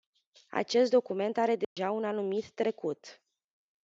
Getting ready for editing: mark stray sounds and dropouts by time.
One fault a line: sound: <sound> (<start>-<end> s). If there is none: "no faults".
sound: dropout (1.6-1.8 s)